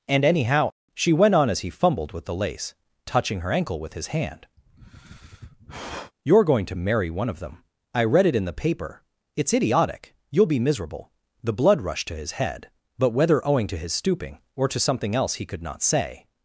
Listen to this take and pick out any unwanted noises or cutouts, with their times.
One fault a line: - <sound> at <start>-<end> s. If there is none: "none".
- sigh at 4.6-6.1 s